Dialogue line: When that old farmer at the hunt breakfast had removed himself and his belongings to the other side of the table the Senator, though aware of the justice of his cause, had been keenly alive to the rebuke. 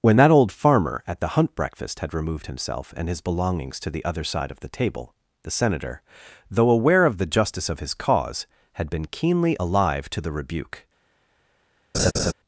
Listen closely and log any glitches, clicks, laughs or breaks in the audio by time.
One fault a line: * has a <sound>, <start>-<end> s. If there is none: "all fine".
* has a laugh, 11.9-12.3 s